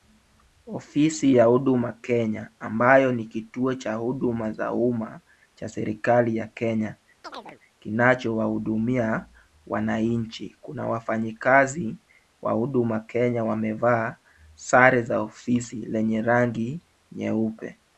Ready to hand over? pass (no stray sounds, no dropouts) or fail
fail